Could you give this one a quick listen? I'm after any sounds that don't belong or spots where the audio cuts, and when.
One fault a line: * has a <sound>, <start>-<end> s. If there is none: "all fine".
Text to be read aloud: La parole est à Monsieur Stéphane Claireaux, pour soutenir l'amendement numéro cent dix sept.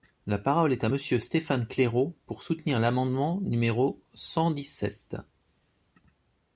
all fine